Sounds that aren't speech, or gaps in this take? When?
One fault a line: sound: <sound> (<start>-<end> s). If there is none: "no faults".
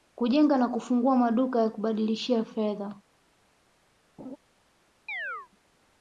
sound: laugh (4.2-4.4 s)
sound: chirp (5.1-5.5 s)